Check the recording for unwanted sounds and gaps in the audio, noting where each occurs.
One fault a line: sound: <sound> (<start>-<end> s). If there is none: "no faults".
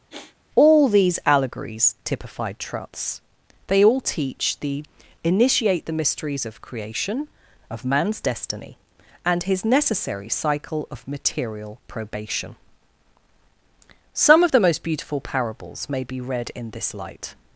sound: sigh (0.1-0.4 s)